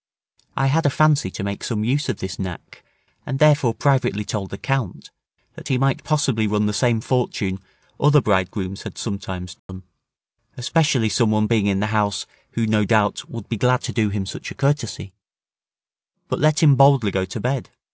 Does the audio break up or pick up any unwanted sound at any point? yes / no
yes